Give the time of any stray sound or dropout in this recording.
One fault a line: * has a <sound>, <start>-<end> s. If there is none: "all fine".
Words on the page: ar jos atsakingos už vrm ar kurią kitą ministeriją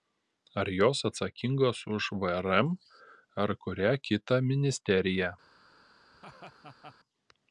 * has a laugh, 6.1-7.0 s